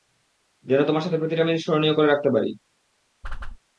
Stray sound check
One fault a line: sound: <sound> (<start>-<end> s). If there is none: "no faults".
sound: whoosh (3.2-3.6 s)